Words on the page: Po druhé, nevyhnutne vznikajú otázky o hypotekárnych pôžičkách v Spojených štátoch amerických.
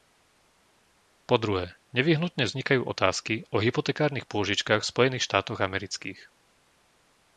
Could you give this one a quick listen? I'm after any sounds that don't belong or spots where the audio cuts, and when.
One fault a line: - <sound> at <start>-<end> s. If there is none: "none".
none